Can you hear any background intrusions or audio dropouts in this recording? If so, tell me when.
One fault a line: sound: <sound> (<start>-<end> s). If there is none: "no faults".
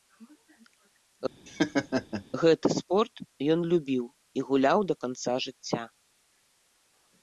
sound: laugh (1.5-2.2 s)